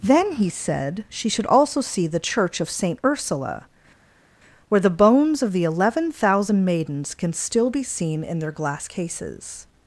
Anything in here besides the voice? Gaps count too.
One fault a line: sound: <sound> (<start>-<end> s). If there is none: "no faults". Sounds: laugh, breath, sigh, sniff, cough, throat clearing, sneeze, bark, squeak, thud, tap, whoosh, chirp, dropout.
no faults